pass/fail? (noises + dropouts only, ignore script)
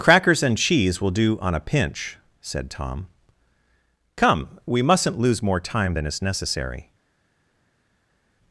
pass